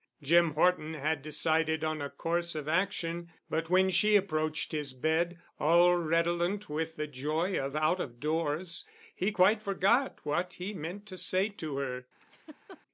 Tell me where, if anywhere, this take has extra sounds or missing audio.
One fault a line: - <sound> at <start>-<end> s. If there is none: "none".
- laugh at 12.2-12.8 s